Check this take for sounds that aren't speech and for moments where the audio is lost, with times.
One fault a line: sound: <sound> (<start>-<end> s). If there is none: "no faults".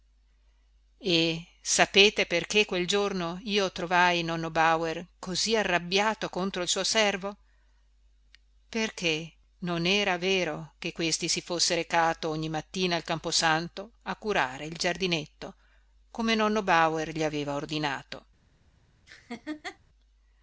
sound: laugh (19.1-19.8 s)